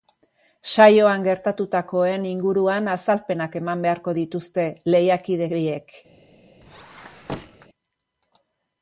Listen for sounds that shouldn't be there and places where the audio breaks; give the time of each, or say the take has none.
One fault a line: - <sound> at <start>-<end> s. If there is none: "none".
- squeak at 6.6-7.7 s